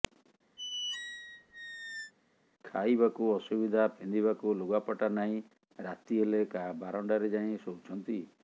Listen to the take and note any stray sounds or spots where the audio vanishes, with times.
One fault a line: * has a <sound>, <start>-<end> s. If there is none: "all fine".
* has a squeak, 0.6-2.1 s